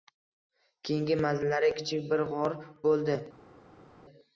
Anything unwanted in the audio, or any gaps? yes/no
no